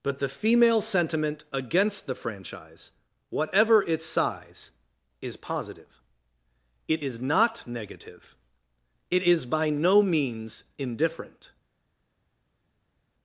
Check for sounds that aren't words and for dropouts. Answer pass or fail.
pass